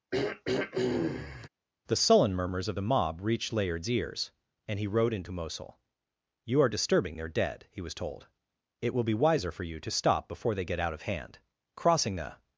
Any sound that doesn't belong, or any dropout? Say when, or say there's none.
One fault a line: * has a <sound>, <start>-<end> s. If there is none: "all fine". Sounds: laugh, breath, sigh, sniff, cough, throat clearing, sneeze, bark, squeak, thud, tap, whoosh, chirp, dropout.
* has a throat clearing, 0.1-1.5 s